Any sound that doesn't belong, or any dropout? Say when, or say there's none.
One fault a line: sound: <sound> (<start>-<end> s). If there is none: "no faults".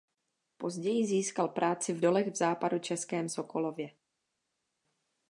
no faults